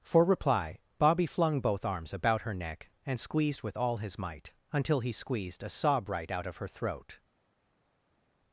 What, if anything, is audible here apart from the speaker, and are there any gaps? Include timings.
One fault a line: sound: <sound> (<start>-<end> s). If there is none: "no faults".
no faults